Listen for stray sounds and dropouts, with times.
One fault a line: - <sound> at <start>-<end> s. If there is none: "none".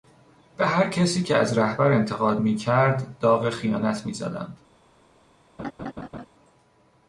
- laugh at 5.6-6.3 s